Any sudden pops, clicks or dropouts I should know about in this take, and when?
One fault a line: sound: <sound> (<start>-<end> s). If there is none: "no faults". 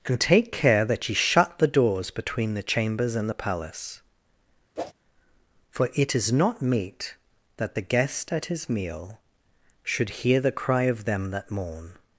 sound: whoosh (4.8-4.9 s)